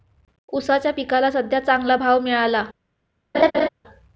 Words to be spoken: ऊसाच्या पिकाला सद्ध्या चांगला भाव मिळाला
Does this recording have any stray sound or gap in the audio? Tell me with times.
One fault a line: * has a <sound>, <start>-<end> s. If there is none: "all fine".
* has a laugh, 3.3-3.7 s